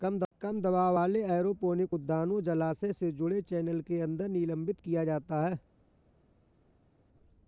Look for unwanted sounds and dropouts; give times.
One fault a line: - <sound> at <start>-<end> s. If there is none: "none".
none